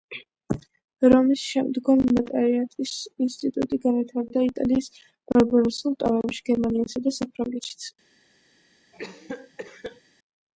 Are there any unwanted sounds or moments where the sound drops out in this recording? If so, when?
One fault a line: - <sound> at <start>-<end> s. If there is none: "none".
- cough at 8.9-10.0 s